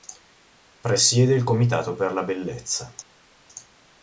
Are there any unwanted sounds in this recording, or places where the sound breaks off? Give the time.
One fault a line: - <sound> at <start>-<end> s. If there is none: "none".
none